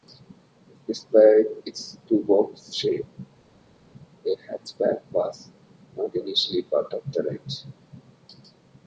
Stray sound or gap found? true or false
false